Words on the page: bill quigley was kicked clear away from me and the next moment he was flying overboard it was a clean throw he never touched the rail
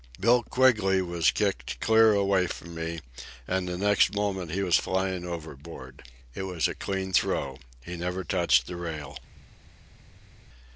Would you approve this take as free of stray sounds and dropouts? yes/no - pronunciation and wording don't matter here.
yes